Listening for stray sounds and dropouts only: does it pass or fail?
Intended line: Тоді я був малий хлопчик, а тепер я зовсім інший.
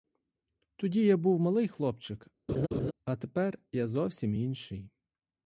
fail